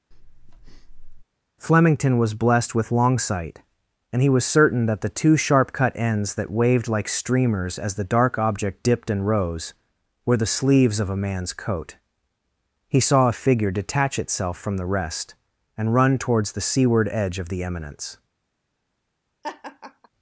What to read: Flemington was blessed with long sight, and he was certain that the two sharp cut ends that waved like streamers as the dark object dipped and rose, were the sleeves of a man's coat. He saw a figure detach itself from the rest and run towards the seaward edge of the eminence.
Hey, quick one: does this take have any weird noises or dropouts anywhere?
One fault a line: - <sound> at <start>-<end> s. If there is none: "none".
- breath at 0.1-1.2 s
- laugh at 19.4-20.1 s